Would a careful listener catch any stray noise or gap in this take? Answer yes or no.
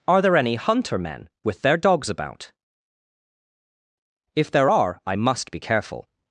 no